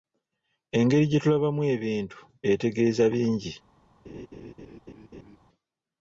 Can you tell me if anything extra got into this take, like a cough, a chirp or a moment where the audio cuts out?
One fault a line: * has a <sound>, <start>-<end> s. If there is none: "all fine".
* has a laugh, 4.0-5.4 s